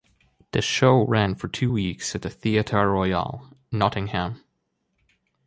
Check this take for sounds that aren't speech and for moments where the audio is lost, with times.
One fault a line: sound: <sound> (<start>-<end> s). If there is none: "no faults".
no faults